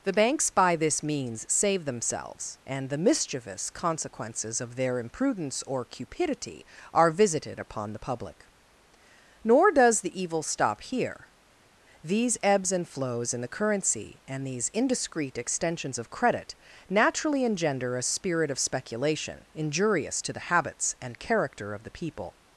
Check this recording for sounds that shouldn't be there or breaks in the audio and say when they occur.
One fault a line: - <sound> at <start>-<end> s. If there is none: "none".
none